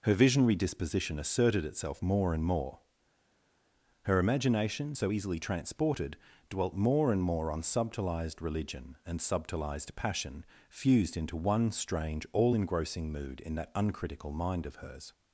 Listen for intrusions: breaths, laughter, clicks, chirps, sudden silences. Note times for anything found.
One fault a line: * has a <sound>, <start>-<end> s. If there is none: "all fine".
all fine